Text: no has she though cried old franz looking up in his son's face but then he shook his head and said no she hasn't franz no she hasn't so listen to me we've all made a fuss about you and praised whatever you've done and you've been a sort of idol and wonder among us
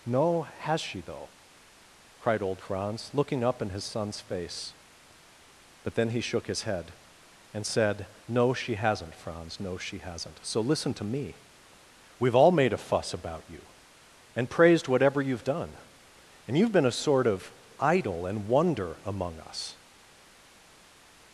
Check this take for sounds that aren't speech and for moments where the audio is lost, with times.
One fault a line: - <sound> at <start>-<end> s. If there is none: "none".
none